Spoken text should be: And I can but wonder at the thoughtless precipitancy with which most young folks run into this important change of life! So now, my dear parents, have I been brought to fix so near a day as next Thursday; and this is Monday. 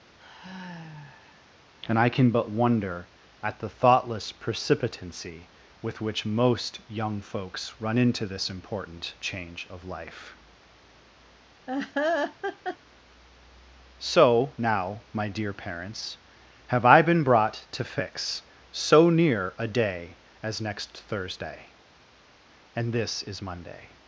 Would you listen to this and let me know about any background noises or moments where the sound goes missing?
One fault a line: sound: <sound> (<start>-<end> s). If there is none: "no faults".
sound: sigh (0.2-1.5 s)
sound: laugh (11.7-12.8 s)